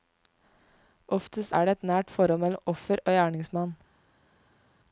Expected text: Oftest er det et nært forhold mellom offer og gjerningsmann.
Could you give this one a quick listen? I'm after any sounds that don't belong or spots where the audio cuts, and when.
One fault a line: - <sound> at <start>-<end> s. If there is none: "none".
none